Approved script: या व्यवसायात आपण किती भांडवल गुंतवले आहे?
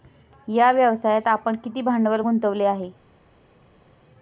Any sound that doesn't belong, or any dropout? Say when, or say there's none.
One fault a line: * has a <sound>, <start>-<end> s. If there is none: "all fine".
all fine